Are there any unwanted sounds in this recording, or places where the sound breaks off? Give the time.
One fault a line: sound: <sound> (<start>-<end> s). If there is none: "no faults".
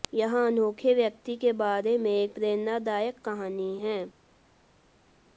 no faults